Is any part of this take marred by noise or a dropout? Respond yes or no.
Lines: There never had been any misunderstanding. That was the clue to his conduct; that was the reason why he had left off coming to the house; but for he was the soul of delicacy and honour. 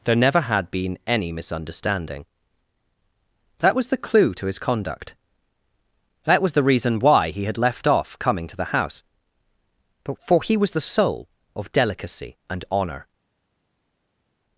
no